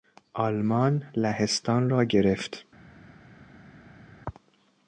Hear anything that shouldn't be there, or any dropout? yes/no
no